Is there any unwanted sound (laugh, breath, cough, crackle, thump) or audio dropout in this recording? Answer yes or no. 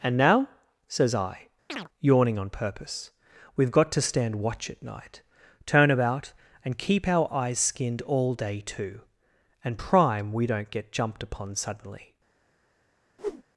yes